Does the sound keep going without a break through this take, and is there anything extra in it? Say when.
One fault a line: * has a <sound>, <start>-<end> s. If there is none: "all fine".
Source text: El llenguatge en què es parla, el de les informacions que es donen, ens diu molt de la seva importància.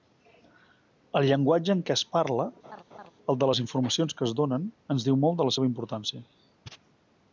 * has a laugh, 2.6-3.1 s